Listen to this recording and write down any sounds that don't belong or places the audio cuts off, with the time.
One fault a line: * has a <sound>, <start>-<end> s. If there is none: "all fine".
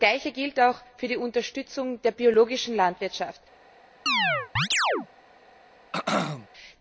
* has a chirp, 4.1-5.1 s
* has a throat clearing, 5.9-6.5 s